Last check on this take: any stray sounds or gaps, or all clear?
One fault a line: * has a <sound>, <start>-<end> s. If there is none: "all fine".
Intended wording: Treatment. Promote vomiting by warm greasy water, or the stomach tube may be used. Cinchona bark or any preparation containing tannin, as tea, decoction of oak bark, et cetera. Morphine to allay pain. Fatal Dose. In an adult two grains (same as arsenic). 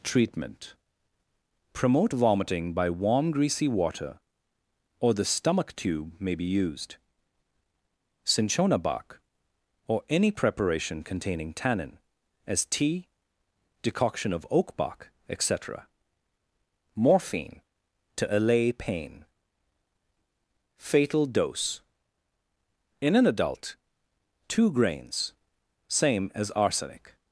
all fine